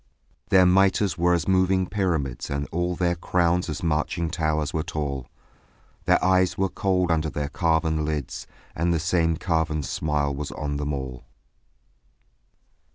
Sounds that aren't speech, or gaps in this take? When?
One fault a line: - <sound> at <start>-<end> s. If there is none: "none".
none